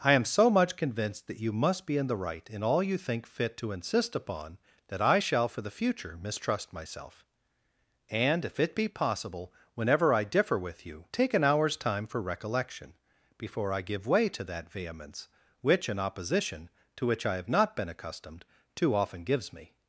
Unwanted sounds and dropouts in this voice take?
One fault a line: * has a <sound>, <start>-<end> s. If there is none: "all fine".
all fine